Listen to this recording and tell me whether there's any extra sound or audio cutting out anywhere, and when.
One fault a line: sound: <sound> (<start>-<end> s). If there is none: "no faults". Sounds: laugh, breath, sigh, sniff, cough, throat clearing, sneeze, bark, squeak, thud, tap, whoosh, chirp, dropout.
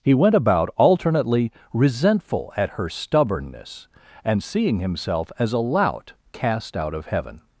no faults